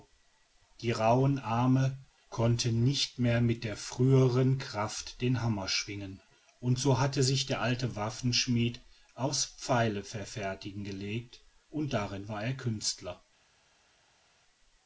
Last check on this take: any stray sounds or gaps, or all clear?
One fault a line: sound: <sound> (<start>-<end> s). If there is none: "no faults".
no faults